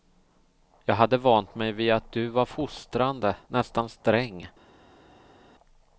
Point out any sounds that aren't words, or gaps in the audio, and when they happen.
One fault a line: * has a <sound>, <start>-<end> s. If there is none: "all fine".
all fine